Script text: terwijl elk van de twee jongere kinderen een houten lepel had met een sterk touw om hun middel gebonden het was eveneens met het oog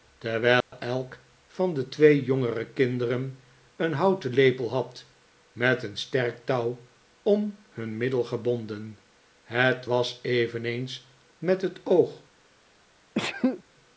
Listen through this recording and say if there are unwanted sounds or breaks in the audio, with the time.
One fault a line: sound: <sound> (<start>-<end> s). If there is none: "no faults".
sound: dropout (0.6-0.7 s)
sound: sneeze (13.1-13.6 s)